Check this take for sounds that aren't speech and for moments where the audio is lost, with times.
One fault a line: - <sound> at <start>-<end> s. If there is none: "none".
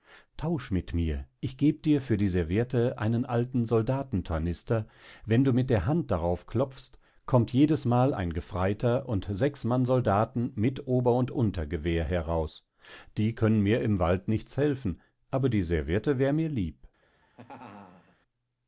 - laugh at 17.0-18.2 s